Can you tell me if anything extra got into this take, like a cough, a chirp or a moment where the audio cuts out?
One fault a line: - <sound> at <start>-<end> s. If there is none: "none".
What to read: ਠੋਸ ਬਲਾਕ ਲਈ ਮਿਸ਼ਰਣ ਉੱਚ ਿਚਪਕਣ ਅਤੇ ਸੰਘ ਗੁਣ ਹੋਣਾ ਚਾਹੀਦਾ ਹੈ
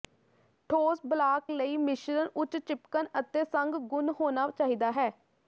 none